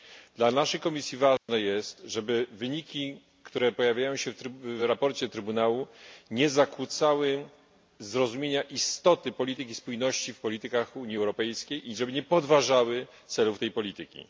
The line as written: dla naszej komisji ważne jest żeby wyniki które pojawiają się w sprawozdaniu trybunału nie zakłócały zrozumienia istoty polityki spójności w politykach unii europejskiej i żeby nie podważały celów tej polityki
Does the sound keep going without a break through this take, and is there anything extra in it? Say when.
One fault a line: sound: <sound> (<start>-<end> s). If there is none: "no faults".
sound: dropout (1.4-1.5 s)